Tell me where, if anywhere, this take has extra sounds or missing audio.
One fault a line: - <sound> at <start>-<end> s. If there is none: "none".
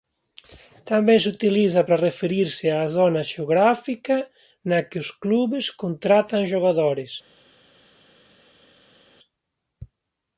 none